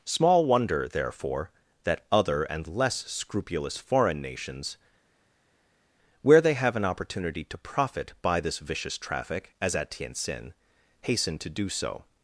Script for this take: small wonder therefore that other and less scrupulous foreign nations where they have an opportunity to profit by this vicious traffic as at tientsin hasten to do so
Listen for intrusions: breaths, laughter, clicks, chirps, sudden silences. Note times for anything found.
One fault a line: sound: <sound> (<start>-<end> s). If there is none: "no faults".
no faults